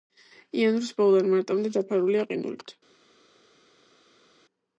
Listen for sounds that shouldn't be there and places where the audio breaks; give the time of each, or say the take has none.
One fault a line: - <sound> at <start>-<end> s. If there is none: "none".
none